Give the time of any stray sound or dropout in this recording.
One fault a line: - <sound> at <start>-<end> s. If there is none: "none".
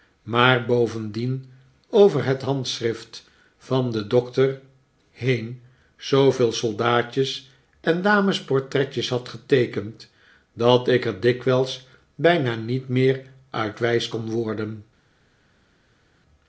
none